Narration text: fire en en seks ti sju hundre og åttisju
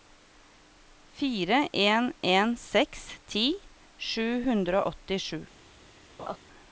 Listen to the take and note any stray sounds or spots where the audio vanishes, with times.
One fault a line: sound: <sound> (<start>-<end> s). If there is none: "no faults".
sound: laugh (6.2-6.4 s)